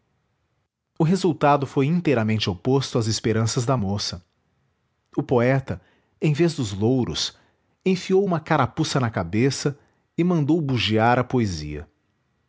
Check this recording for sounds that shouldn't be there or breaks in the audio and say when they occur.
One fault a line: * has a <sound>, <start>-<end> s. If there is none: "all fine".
all fine